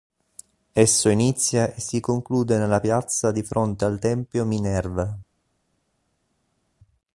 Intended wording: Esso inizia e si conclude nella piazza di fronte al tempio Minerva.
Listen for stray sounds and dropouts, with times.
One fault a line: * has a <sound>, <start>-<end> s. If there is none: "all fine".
all fine